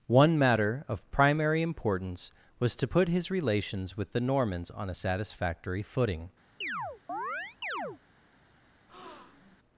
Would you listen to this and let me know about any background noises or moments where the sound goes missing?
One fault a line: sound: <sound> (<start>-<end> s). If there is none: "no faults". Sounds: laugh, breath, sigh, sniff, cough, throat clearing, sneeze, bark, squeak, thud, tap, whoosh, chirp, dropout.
sound: chirp (6.6-8.0 s)
sound: breath (8.9-9.6 s)